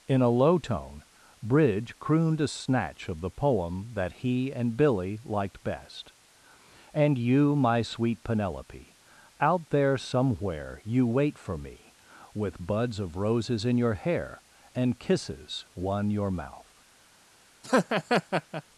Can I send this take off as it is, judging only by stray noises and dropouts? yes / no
no